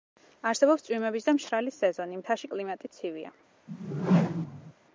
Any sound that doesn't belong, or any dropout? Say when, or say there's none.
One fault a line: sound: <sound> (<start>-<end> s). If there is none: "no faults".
sound: whoosh (3.7-4.7 s)